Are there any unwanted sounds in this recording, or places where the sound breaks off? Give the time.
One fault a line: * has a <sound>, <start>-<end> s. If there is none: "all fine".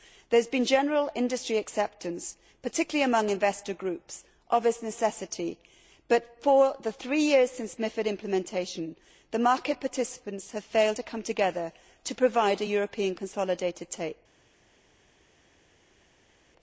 all fine